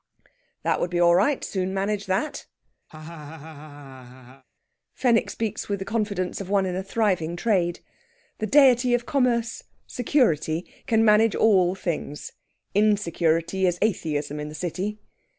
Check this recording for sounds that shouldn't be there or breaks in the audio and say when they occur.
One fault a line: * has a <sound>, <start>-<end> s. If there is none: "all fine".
* has a laugh, 2.9-4.4 s